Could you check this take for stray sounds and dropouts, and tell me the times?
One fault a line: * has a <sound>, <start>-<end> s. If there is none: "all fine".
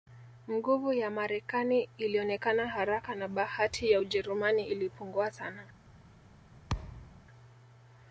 * has a thud, 6.7-7.2 s